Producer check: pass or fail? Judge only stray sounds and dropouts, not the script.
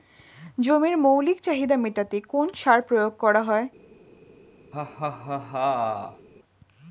fail